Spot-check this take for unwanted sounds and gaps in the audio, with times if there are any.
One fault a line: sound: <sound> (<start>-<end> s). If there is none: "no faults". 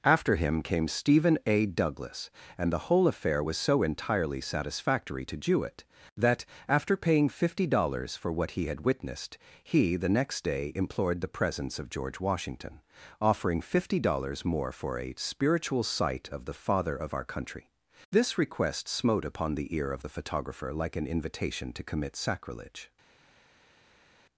no faults